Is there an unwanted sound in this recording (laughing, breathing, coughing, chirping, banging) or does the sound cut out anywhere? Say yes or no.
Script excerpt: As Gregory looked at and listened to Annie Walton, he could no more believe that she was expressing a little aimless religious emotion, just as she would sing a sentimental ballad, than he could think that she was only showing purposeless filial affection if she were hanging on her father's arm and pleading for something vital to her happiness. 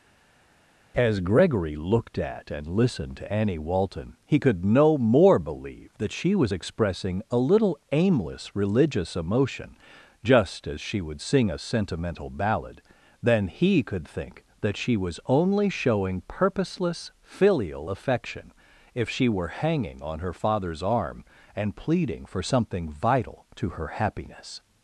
no